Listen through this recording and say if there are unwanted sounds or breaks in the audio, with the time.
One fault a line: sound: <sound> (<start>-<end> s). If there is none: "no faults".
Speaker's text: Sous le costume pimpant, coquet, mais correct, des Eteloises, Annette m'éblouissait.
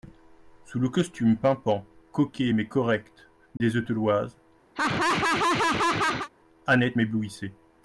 sound: dropout (3.6-3.6 s)
sound: laugh (4.7-6.3 s)